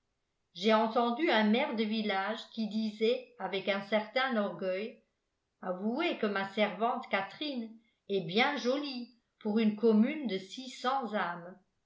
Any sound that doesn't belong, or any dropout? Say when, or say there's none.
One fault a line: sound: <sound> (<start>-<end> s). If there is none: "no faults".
no faults